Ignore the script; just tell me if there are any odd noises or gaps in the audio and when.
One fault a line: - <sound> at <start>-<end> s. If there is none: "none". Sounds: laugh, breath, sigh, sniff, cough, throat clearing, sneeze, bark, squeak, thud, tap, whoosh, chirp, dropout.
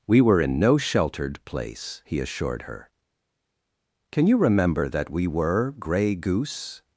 none